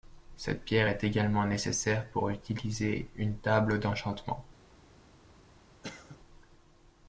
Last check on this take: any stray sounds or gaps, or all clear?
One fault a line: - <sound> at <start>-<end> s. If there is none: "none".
- cough at 5.8-6.2 s